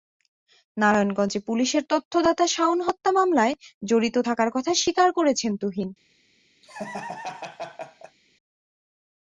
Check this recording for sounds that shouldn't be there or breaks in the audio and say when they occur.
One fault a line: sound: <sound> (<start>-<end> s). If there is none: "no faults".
sound: laugh (6.6-8.2 s)